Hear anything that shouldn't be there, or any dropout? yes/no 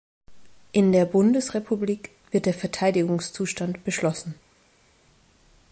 no